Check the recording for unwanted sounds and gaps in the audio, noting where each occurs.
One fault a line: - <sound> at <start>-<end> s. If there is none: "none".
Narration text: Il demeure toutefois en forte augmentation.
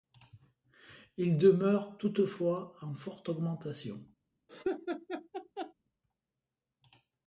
- laugh at 4.5-5.7 s